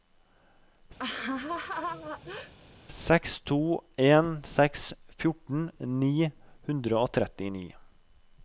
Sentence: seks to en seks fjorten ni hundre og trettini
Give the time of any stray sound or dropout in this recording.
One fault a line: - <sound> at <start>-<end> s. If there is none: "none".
- laugh at 1.0-2.5 s